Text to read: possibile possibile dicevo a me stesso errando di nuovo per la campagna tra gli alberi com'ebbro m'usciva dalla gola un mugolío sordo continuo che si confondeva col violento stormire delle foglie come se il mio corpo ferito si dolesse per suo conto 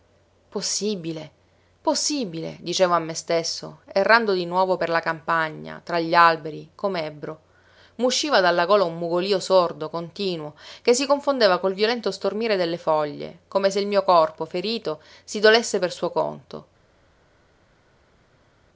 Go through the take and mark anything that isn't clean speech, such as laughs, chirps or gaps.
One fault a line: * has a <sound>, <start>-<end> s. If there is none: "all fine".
all fine